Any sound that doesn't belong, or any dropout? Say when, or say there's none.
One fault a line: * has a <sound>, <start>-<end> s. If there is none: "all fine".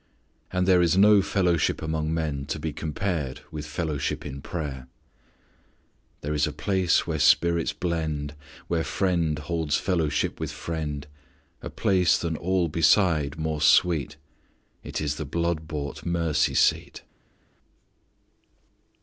all fine